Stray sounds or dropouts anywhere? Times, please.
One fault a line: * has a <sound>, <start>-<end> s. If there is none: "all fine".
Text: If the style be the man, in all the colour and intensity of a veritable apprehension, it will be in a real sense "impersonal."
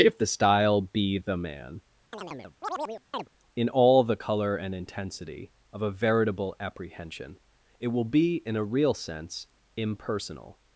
* has a chirp, 2.1-3.3 s